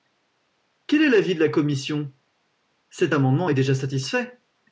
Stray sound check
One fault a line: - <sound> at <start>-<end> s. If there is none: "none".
none